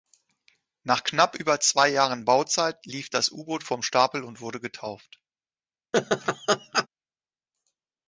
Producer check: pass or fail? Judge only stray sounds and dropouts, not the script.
fail